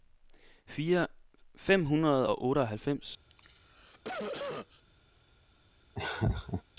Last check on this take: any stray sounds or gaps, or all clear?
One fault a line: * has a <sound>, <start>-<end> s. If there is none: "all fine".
* has a cough, 3.3-4.8 s
* has a laugh, 5.9-6.6 s